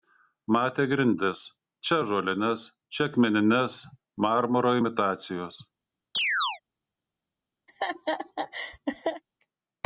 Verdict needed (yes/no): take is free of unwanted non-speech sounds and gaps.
no